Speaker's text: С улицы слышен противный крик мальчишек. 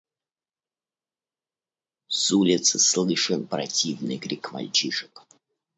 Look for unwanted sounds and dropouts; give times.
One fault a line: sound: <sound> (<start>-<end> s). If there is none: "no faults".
no faults